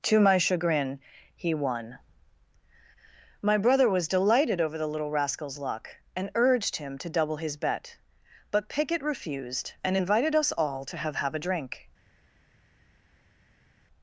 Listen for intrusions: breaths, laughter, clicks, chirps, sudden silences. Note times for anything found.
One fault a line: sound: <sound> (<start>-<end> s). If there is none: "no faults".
no faults